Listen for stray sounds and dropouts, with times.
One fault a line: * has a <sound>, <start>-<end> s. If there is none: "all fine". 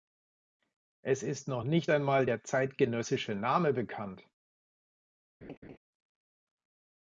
* has a laugh, 5.4-5.8 s